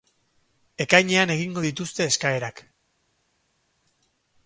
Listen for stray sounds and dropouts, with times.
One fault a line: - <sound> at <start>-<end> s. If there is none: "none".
none